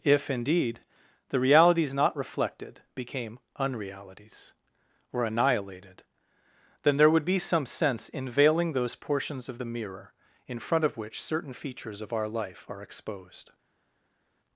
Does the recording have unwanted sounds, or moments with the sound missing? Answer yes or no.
no